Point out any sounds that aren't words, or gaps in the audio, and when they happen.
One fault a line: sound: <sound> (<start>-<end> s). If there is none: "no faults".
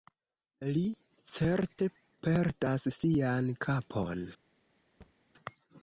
sound: thud (5.0-5.1 s)